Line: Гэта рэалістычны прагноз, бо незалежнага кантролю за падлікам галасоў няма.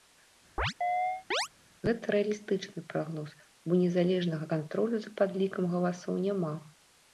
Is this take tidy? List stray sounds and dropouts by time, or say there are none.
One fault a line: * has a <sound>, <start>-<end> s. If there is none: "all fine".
* has a chirp, 0.6-1.5 s